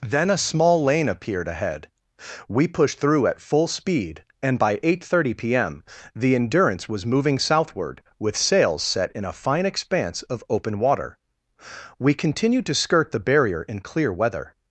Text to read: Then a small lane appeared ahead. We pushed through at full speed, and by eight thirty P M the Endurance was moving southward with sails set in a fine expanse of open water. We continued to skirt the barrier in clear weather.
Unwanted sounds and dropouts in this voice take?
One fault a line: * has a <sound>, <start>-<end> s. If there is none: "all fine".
all fine